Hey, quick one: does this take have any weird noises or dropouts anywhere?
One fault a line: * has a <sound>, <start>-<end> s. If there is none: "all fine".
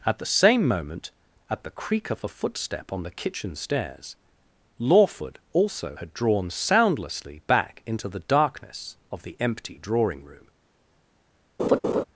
* has a laugh, 11.6-12.0 s